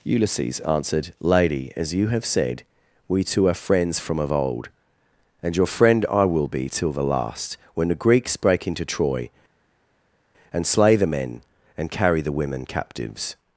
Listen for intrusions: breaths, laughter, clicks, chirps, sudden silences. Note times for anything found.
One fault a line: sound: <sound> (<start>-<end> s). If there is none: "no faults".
no faults